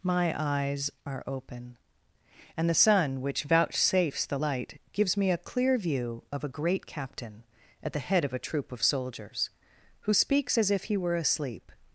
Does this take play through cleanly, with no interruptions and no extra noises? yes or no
yes